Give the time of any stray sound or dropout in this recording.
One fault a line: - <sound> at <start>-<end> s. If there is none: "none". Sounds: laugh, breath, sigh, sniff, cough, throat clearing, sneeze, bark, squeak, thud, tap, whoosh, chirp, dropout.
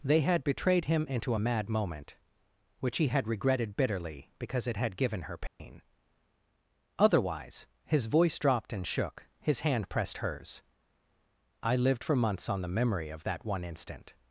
- dropout at 5.5-5.6 s